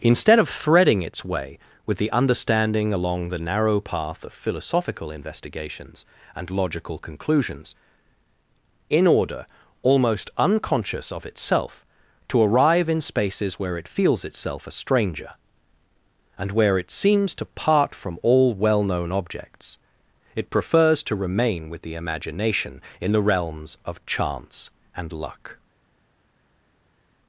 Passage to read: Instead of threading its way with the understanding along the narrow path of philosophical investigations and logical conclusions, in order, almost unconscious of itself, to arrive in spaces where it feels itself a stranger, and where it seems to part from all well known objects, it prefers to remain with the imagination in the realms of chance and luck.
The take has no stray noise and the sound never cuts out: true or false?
true